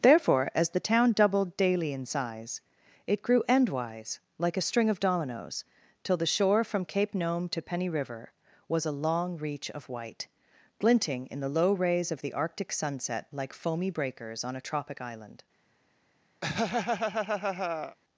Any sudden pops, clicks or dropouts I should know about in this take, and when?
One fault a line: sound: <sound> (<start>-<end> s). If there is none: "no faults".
sound: laugh (16.4-18.0 s)